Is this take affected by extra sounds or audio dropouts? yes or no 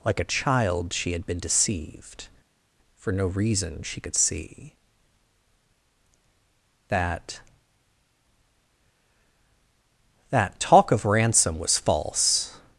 no